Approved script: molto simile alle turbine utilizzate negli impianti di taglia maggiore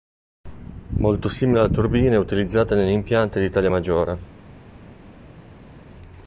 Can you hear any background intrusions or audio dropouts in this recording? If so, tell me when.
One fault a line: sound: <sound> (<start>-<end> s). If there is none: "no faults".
no faults